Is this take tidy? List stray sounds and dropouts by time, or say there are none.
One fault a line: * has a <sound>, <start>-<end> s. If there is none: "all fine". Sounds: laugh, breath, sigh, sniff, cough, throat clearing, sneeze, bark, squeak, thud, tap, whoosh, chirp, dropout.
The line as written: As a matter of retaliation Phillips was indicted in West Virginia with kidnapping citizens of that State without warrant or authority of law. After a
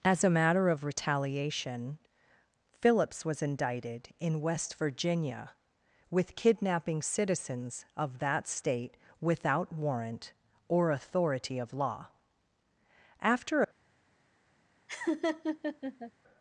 * has a laugh, 14.9-16.1 s